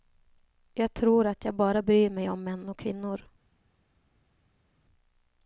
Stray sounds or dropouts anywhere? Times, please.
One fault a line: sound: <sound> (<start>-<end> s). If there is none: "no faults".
no faults